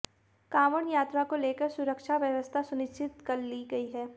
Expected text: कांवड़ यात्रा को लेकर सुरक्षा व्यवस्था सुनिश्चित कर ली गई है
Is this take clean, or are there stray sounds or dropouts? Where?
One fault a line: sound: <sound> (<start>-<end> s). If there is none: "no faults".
no faults